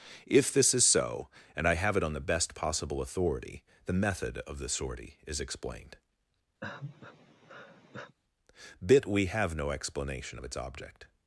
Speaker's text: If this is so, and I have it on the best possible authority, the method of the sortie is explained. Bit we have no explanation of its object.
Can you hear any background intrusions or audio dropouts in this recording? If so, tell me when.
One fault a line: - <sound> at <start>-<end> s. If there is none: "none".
- sigh at 6.6-8.2 s